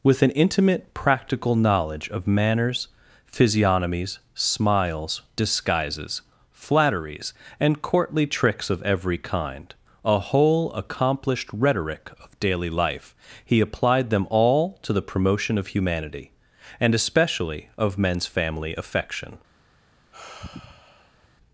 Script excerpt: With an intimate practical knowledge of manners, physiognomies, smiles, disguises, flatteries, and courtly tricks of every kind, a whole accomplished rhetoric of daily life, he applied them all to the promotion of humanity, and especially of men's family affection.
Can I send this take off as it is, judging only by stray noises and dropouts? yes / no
no